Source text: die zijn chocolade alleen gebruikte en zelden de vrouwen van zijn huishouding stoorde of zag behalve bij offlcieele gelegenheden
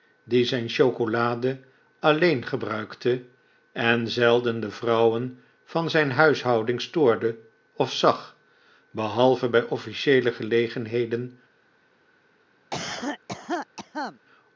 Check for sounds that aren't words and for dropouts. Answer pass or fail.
fail